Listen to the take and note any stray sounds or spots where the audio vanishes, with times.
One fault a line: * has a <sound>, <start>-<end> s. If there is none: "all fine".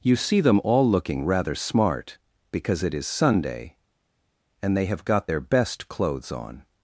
all fine